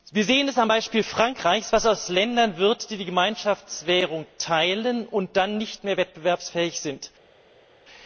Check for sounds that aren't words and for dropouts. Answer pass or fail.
pass